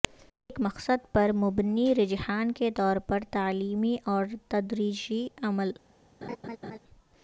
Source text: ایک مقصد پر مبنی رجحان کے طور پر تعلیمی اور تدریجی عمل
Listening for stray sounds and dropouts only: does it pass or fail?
fail